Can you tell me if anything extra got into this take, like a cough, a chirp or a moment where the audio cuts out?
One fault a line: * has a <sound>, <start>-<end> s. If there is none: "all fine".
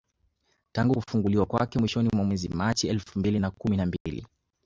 * has a dropout, 4.0-4.1 s